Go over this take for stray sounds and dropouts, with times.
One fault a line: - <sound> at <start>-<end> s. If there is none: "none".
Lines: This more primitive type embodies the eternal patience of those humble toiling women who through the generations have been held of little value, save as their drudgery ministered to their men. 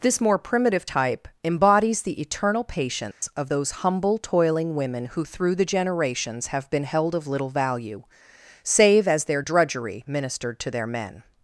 - dropout at 3.1-3.2 s